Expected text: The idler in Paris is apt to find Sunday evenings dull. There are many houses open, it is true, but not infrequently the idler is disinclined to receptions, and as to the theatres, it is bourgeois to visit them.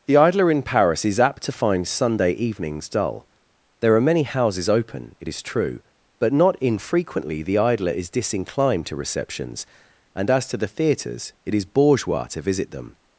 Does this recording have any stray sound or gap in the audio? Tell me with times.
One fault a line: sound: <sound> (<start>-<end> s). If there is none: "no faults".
no faults